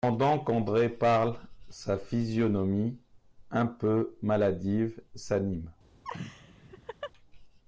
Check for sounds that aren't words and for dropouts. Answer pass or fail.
fail